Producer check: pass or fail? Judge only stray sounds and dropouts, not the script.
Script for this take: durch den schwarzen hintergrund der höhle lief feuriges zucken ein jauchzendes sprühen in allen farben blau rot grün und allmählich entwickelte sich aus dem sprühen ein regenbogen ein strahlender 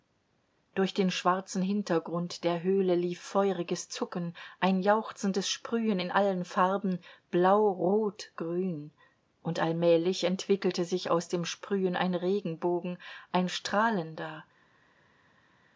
pass